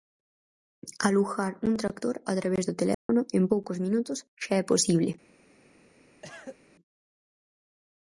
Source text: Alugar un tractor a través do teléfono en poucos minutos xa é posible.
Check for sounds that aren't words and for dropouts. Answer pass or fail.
fail